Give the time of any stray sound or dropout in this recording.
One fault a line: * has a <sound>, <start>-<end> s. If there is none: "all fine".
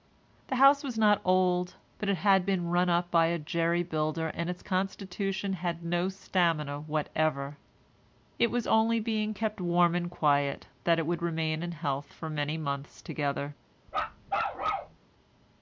* has a bark, 13.9-15.0 s